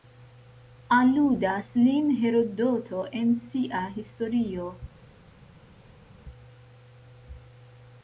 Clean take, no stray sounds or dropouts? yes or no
yes